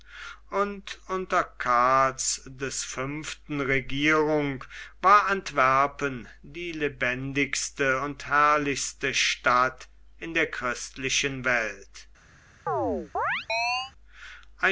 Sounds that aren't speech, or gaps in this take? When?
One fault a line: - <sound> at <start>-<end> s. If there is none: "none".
- chirp at 12.7-13.9 s